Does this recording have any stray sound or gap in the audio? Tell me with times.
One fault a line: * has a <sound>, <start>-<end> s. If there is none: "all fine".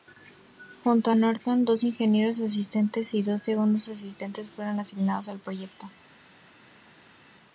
all fine